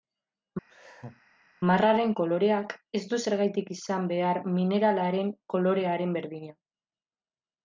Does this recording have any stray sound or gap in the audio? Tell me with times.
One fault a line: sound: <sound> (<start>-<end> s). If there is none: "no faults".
sound: laugh (0.7-1.2 s)